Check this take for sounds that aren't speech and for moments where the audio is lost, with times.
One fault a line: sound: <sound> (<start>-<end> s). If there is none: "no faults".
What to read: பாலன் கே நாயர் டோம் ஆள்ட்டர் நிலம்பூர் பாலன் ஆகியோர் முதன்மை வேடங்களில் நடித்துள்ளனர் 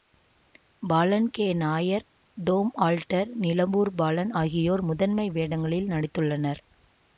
no faults